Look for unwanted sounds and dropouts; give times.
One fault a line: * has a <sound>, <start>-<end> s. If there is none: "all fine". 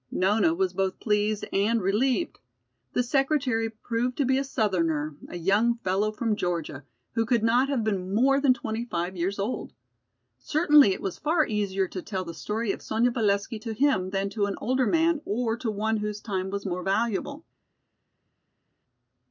all fine